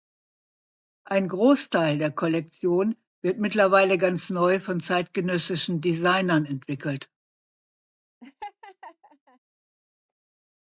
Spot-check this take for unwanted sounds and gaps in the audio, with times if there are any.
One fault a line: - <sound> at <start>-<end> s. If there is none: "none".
- laugh at 8.2-9.4 s